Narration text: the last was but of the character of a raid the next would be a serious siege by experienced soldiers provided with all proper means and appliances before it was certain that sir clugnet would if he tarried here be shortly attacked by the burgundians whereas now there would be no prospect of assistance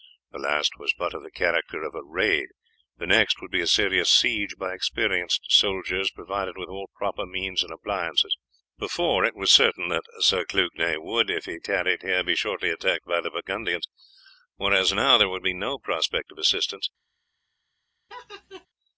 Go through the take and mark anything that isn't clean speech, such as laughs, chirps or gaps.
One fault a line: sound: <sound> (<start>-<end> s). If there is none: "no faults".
sound: laugh (18.1-18.7 s)